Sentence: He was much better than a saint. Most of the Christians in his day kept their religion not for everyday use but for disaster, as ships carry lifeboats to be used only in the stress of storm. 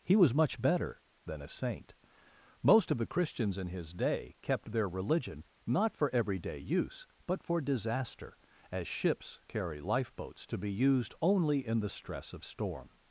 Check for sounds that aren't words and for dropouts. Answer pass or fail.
pass